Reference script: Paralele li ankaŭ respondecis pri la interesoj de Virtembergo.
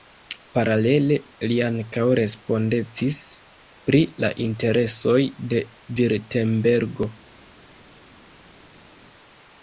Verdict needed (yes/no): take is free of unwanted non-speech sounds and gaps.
yes